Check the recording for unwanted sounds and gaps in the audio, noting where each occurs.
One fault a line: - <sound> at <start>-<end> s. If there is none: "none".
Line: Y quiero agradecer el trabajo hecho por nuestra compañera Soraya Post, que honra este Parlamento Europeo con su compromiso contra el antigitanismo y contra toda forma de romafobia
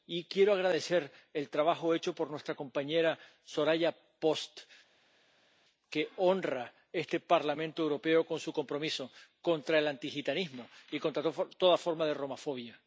none